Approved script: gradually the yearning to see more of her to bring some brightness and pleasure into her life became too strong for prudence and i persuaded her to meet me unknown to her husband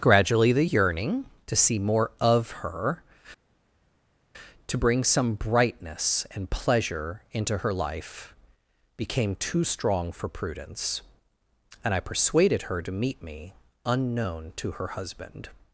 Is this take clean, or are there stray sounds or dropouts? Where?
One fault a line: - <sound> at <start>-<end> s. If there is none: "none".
none